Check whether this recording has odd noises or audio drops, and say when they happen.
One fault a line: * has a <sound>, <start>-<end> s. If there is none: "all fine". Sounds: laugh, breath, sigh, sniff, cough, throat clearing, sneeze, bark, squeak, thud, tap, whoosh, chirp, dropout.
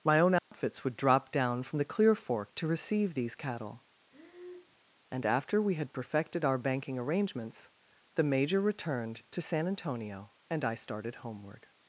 * has a dropout, 0.4-0.5 s
* has a breath, 4.1-4.8 s